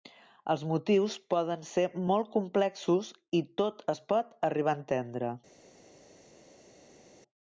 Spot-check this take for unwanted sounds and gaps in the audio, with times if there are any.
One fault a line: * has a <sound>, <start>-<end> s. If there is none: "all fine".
all fine